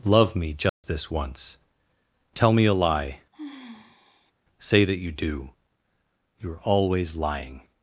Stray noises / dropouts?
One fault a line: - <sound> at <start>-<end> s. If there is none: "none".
- dropout at 0.7-0.8 s
- sigh at 3.3-4.3 s